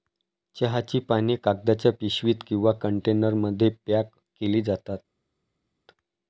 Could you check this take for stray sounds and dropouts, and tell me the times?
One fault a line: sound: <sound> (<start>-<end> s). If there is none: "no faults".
no faults